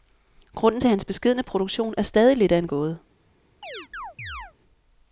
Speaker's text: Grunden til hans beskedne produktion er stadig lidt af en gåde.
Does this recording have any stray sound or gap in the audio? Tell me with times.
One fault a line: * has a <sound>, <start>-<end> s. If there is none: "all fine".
* has a chirp, 3.6-4.5 s